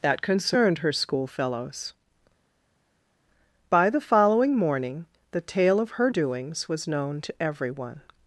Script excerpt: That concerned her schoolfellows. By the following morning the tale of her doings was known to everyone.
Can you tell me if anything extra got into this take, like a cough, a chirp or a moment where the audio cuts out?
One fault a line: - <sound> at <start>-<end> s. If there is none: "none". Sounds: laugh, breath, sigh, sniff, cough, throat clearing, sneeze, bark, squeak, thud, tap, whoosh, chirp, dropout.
none